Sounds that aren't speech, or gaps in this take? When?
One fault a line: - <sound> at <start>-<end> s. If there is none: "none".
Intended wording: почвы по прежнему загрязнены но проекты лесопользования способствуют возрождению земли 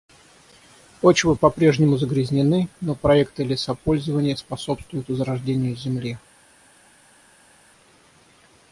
none